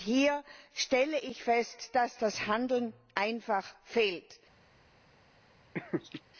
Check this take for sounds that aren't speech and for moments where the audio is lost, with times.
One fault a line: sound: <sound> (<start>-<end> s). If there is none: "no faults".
sound: laugh (5.7-6.2 s)